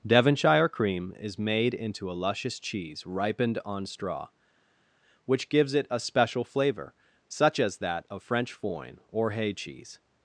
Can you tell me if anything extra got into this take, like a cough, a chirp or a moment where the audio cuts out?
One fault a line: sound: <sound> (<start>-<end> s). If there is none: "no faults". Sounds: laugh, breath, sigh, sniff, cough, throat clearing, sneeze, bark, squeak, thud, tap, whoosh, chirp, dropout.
no faults